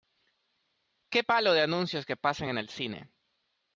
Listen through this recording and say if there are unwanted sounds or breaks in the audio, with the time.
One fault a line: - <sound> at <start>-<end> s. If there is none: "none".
none